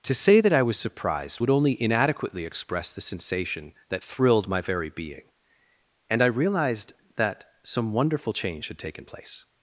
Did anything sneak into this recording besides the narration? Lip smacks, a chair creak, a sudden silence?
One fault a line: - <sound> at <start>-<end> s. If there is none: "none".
none